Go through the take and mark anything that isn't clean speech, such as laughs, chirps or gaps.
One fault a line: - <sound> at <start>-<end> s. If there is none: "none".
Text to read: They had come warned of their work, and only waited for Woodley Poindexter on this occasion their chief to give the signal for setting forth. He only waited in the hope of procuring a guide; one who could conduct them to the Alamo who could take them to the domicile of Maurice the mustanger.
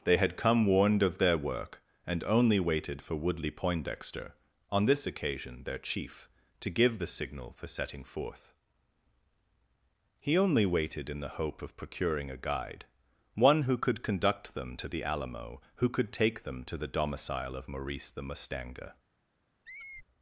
- squeak at 19.6-20.1 s